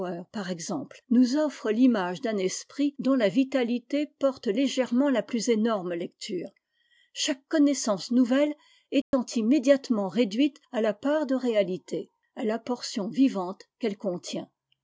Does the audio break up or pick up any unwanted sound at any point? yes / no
yes